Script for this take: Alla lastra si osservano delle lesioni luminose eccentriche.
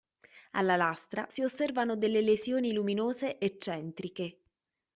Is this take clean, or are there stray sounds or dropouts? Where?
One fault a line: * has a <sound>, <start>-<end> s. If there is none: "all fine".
all fine